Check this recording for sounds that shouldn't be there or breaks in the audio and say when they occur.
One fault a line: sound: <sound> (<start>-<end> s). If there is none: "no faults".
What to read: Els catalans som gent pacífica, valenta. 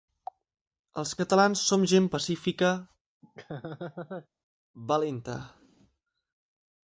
sound: laugh (3.2-4.3 s)